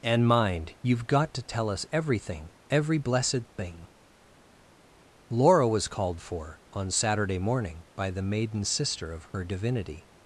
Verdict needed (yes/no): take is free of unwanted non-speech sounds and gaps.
yes